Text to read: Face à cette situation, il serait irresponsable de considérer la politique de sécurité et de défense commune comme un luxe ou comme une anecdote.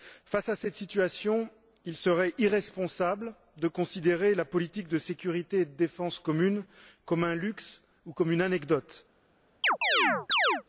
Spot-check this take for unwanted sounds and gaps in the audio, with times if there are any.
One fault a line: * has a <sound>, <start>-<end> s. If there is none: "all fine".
* has a chirp, 9.6-10.6 s